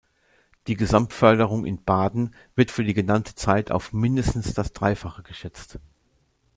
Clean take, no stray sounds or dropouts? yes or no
yes